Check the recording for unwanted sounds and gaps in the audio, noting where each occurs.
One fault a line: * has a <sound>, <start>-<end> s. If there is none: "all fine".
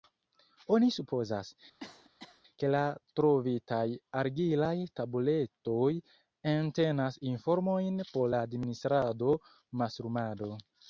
* has a cough, 1.8-2.4 s